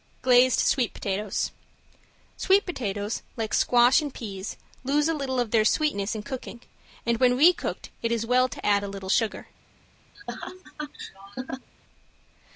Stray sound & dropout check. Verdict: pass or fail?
fail